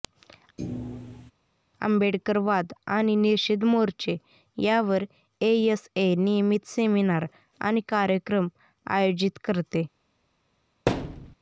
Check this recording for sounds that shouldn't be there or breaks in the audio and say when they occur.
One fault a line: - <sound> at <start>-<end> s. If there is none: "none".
- thud at 0.6-1.3 s
- thud at 10.9-11.3 s